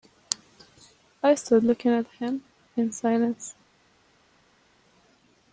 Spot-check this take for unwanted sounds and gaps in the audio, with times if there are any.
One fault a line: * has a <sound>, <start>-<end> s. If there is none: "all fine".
all fine